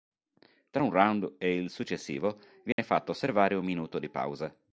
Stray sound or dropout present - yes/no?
yes